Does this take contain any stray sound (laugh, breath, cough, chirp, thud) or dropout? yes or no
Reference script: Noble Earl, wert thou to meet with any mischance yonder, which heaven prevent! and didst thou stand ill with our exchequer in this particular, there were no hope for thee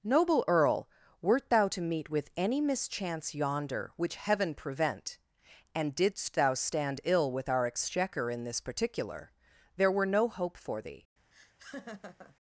yes